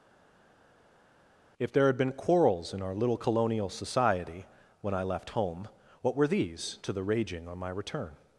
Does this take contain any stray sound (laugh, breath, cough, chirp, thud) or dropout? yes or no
no